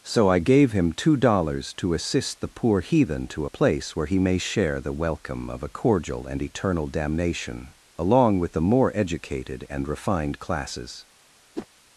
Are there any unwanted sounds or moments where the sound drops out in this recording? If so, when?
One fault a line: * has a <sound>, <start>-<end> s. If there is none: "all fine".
* has a whoosh, 11.6-11.7 s